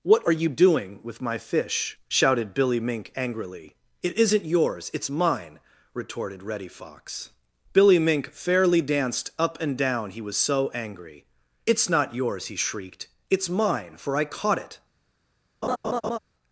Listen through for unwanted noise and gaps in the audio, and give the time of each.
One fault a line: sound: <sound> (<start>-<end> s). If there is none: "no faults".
sound: laugh (15.6-16.2 s)